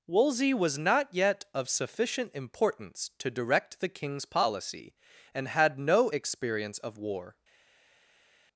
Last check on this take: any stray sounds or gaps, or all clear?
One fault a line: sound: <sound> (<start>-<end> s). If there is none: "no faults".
no faults